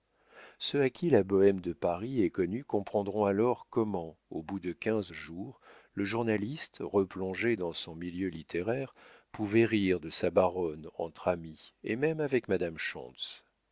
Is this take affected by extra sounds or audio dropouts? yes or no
no